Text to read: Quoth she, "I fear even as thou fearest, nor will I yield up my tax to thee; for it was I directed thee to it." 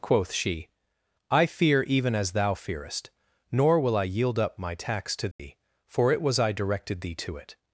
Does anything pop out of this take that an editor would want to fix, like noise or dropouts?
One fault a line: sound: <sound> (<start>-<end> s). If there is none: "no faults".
sound: dropout (5.3-5.4 s)